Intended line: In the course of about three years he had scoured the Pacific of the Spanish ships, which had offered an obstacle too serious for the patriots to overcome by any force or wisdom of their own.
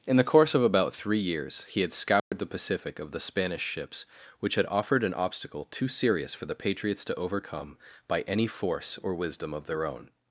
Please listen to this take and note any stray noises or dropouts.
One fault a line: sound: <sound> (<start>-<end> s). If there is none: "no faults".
sound: dropout (2.2-2.3 s)